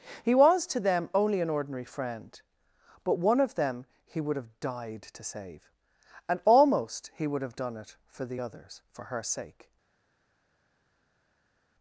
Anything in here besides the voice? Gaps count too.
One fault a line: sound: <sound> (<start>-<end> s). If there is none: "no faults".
no faults